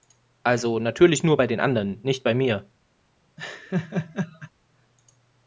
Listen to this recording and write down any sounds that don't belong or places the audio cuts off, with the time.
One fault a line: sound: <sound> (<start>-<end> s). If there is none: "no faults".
sound: laugh (3.4-4.5 s)